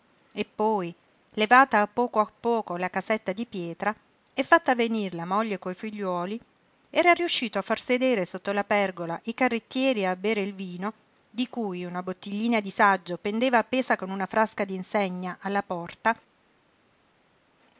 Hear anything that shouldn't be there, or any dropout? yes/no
no